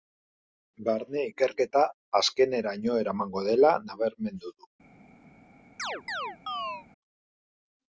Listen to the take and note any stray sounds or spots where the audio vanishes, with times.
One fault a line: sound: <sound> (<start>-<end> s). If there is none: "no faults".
sound: chirp (5.8-6.9 s)